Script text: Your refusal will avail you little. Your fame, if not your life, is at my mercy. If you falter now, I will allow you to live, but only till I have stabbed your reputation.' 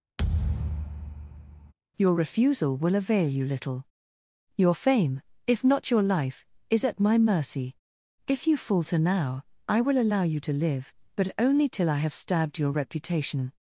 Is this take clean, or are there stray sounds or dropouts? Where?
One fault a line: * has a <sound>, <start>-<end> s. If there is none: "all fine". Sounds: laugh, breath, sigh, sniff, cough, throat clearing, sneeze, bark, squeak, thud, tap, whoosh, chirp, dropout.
* has a thud, 0.2-1.7 s